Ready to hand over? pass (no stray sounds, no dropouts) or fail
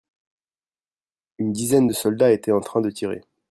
pass